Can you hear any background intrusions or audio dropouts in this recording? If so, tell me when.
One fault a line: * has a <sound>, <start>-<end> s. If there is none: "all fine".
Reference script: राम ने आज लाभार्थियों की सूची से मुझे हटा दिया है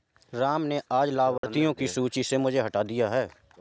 * has a dropout, 1.4-1.4 s